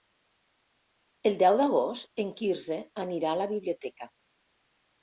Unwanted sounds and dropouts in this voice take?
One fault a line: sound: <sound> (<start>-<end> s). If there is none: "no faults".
no faults